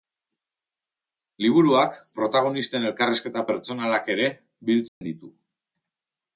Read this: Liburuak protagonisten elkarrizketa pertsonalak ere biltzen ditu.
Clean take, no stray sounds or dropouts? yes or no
no